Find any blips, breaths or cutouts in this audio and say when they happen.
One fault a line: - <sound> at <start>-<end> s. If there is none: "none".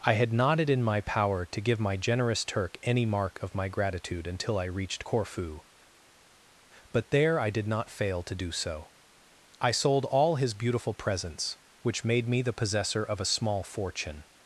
none